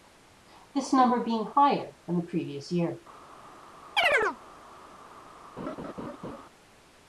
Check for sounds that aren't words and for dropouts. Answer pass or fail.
fail